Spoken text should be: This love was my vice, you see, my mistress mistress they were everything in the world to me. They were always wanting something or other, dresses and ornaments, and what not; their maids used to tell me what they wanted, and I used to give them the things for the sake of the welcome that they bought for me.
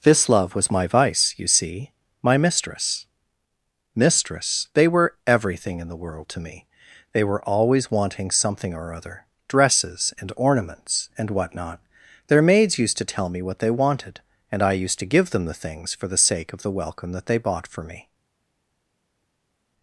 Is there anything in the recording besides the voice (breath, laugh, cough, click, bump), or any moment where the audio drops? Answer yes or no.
no